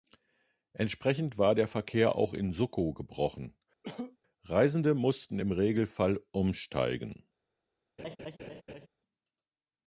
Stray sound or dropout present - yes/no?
yes